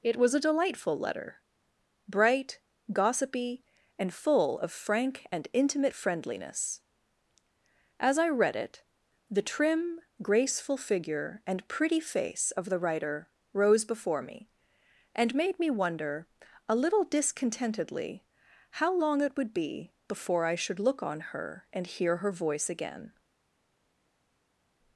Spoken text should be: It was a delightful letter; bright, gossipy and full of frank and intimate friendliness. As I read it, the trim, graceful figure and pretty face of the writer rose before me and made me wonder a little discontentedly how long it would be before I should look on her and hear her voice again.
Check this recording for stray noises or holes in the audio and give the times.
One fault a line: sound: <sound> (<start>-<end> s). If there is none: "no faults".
no faults